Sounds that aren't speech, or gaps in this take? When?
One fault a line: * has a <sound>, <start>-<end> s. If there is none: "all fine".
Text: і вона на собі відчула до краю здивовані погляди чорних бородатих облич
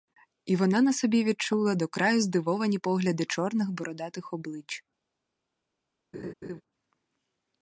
* has a laugh, 6.1-6.6 s